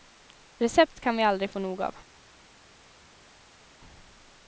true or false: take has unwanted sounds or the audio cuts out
false